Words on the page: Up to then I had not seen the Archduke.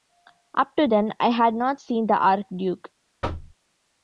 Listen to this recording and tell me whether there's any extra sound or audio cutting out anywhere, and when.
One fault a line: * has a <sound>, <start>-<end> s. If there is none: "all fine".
* has a thud, 3.2-3.6 s